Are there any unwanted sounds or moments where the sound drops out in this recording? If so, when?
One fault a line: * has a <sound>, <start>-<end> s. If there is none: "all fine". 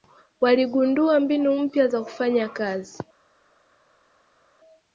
all fine